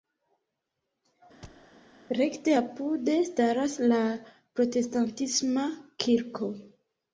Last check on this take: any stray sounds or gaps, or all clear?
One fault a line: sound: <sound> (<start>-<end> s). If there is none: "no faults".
sound: thud (1.4-1.7 s)